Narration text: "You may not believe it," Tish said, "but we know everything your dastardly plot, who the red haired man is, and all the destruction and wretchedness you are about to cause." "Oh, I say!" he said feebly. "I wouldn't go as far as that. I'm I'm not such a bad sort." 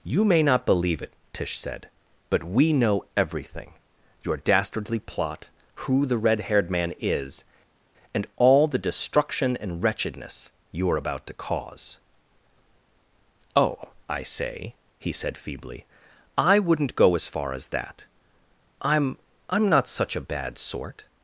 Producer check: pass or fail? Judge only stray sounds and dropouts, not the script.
pass